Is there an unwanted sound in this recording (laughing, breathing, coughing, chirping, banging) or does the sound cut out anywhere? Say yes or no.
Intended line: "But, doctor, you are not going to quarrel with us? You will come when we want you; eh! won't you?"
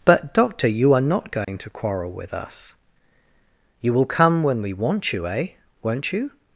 yes